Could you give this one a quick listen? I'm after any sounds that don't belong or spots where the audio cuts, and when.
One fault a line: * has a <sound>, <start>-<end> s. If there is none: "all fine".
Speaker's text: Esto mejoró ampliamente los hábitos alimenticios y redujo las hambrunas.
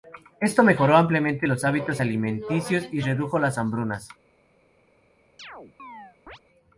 * has a chirp, 5.4-6.4 s